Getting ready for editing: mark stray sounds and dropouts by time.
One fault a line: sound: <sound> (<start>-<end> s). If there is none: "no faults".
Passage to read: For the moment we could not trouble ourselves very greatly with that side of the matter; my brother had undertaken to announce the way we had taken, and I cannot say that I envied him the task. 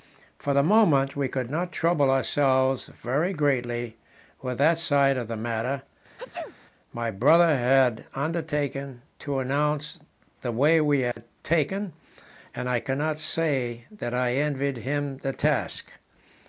sound: sneeze (6.2-6.6 s)
sound: dropout (11.1-11.2 s)